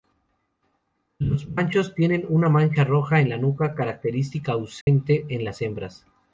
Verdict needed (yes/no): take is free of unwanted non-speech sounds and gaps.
no